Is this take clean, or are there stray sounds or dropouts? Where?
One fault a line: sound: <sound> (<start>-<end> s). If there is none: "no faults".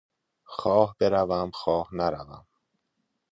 no faults